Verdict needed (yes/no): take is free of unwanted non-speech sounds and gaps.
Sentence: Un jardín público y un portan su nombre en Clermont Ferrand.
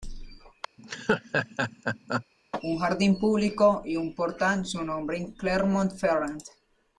no